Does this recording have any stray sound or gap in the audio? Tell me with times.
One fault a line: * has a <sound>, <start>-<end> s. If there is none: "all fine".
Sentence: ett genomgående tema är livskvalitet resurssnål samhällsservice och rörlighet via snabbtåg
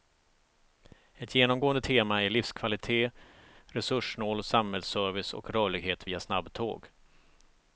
all fine